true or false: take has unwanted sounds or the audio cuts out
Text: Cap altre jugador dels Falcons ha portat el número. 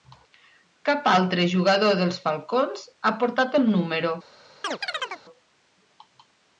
true